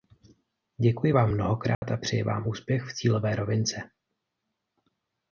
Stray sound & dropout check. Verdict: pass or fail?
fail